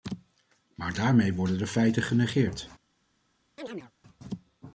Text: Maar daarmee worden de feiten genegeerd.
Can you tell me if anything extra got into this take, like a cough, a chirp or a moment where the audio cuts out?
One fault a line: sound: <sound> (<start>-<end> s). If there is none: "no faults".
sound: chirp (3.6-3.9 s)